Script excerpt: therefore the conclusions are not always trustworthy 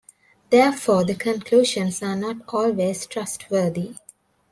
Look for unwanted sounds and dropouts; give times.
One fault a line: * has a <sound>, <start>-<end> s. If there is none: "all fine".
all fine